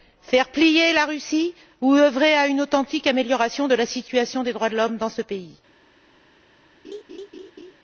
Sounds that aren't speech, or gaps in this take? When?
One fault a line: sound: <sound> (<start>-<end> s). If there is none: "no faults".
sound: laugh (6.8-7.7 s)